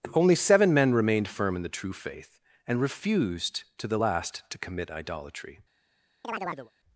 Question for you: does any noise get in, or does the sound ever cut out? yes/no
yes